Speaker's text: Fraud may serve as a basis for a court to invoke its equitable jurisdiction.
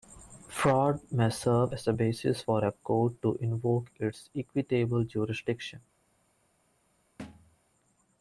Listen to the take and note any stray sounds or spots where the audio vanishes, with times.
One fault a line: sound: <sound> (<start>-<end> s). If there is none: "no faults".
sound: thud (7.2-7.6 s)